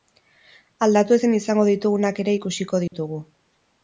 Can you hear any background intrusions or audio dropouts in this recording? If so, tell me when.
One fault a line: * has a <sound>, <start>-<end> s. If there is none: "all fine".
* has a dropout, 2.9-2.9 s